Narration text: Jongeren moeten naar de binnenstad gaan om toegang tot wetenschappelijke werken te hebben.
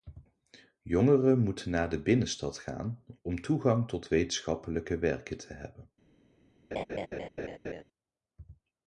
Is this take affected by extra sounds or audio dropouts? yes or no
yes